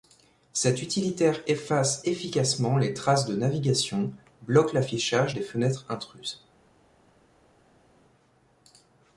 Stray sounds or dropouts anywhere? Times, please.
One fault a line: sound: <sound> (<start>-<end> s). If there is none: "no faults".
no faults